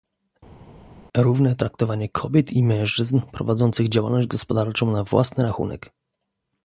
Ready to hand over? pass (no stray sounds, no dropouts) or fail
pass